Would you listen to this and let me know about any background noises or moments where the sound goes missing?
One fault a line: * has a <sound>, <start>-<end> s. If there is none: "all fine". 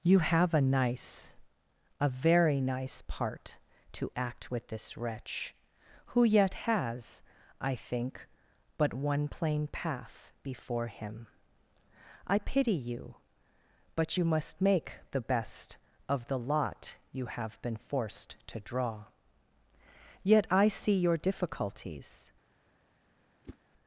* has a whoosh, 23.4-23.6 s